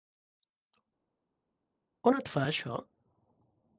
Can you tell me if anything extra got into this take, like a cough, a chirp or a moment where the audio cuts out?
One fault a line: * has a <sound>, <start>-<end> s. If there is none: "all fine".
all fine